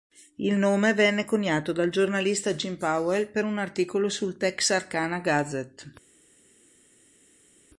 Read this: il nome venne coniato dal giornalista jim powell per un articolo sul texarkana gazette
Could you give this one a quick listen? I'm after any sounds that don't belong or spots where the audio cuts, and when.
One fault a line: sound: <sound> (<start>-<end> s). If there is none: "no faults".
no faults